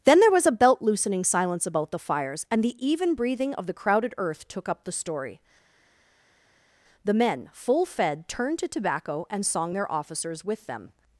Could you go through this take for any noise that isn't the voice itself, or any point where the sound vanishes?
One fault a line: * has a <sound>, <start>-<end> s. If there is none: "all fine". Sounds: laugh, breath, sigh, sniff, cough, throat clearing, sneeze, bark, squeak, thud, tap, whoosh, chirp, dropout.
all fine